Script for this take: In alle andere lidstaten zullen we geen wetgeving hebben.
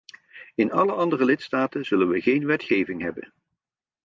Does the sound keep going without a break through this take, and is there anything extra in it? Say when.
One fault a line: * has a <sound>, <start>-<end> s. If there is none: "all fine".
all fine